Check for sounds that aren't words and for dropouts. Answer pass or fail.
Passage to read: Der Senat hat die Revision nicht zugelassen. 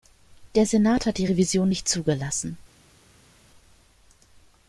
pass